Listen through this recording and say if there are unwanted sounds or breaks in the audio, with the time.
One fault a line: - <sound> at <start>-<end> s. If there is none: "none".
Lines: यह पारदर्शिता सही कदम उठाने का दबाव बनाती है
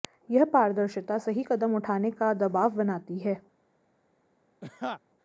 - laugh at 4.6-5.0 s